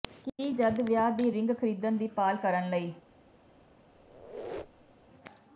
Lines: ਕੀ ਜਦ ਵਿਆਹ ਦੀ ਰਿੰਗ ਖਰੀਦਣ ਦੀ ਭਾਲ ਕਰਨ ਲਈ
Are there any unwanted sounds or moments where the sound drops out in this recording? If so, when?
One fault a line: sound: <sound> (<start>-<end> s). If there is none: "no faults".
sound: squeak (3.9-5.1 s)